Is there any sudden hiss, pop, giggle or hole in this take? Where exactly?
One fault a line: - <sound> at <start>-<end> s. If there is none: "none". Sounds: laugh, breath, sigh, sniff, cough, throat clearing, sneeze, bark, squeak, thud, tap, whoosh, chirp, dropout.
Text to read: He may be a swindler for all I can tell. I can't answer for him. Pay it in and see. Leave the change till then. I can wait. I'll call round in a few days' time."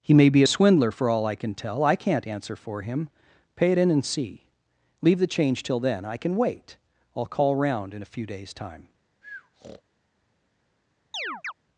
- breath at 9.2-9.8 s
- chirp at 11.1-11.5 s